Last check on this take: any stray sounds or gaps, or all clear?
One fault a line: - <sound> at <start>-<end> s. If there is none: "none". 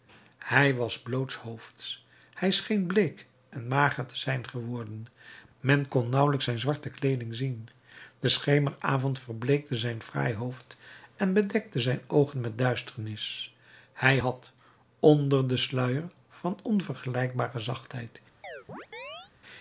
- chirp at 18.4-19.3 s